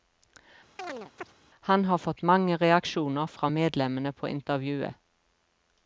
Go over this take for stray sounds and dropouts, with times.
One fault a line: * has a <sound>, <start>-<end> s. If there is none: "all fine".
* has a chirp, 0.8-1.3 s